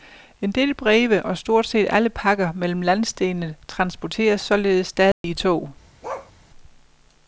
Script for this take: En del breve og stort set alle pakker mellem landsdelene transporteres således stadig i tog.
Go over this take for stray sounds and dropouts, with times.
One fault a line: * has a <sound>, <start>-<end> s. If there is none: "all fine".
* has a dropout, 5.1-5.2 s
* has a bark, 6.0-6.3 s